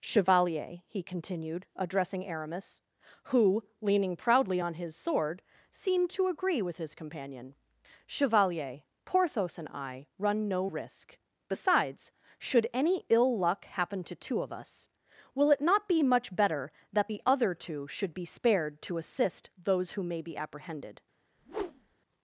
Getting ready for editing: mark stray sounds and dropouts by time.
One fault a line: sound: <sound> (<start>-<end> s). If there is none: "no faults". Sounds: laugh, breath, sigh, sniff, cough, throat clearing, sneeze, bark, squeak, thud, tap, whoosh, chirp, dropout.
sound: whoosh (21.4-22.0 s)